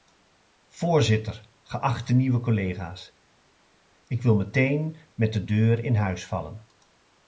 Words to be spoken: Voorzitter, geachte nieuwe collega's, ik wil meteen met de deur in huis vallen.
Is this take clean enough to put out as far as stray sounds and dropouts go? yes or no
yes